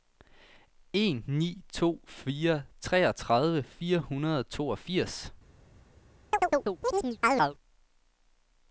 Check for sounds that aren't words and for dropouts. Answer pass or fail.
fail